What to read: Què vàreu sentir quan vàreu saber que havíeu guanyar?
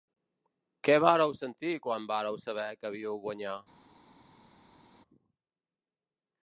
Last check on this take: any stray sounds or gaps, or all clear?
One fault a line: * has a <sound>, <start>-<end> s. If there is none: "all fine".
all fine